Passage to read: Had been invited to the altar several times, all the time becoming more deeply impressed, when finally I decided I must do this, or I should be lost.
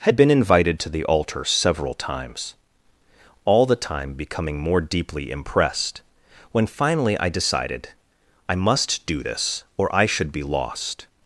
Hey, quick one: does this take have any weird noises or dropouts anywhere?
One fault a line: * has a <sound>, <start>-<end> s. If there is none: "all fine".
all fine